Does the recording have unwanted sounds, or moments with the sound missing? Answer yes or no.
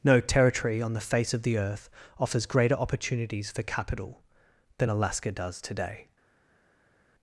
no